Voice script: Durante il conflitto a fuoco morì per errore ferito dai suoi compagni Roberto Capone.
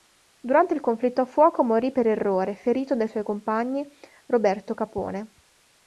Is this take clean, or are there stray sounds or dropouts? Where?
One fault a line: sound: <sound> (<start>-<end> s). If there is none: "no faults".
no faults